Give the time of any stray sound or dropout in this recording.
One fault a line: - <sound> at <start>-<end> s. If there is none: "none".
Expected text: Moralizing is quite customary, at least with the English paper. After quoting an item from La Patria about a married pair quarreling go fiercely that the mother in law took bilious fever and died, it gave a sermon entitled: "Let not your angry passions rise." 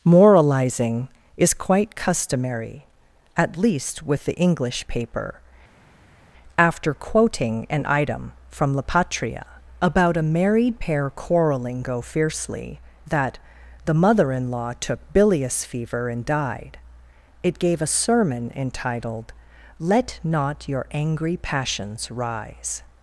none